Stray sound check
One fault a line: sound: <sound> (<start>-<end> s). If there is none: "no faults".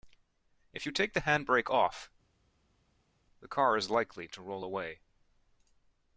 no faults